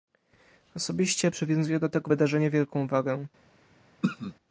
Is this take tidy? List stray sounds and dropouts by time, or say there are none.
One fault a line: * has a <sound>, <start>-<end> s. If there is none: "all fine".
* has a throat clearing, 4.0-4.3 s